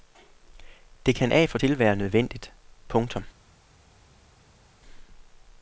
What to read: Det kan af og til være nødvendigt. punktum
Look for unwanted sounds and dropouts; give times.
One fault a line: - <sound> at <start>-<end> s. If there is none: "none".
none